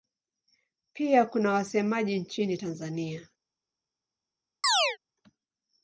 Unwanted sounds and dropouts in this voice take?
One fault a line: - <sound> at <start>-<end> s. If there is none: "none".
- chirp at 4.6-5.0 s